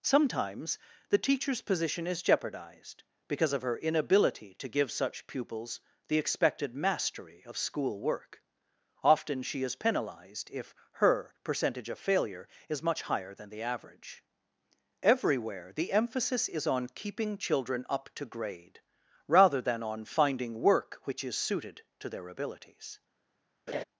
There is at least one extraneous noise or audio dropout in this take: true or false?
true